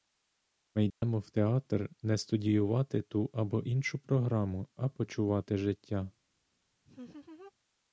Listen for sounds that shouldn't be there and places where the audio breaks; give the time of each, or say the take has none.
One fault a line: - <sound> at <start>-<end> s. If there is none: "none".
- dropout at 0.9-1.0 s
- laugh at 6.8-7.5 s